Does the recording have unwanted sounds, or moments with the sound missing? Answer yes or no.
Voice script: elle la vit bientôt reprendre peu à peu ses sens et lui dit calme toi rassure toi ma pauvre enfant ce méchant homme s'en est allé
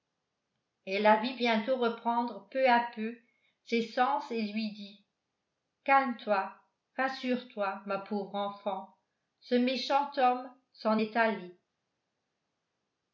no